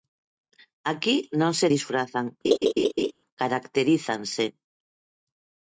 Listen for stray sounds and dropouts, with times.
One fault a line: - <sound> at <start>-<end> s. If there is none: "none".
- laugh at 2.4-3.1 s